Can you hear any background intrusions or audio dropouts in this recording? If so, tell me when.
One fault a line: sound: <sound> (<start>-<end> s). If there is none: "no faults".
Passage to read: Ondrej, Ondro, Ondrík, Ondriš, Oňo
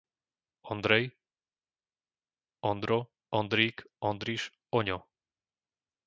no faults